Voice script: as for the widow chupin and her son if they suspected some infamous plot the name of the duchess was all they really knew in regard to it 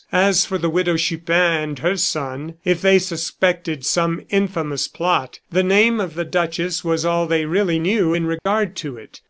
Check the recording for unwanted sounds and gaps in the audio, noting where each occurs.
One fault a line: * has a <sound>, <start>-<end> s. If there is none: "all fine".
* has a dropout, 8.4-8.5 s